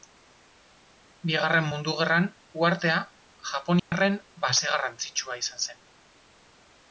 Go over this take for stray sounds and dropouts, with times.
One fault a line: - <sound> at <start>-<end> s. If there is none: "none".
- dropout at 3.8-3.9 s